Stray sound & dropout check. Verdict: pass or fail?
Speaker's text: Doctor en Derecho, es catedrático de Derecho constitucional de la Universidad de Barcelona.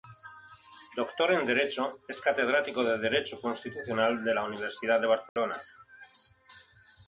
fail